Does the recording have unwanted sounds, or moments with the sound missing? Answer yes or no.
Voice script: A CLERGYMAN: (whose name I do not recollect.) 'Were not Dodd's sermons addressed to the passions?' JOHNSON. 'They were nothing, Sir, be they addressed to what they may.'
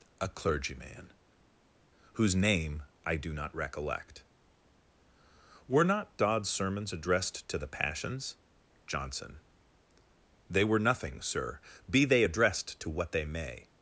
no